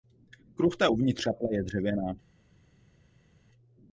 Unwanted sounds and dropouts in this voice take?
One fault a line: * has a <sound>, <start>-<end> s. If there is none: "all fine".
all fine